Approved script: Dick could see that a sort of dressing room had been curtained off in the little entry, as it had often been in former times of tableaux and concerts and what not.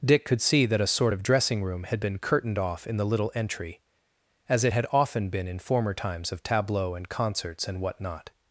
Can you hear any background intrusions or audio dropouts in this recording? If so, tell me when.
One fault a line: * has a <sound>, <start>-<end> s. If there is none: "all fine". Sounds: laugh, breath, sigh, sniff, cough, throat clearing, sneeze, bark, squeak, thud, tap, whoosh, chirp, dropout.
all fine